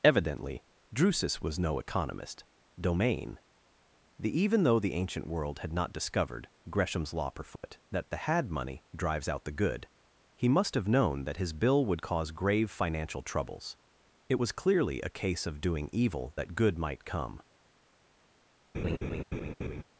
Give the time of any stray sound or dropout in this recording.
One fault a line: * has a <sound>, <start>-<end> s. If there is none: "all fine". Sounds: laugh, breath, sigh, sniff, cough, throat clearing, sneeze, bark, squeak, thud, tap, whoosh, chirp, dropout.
* has a dropout, 7.6-7.6 s
* has a laugh, 18.7-19.8 s